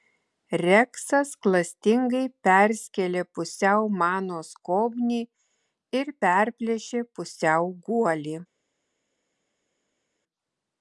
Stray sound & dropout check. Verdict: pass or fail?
pass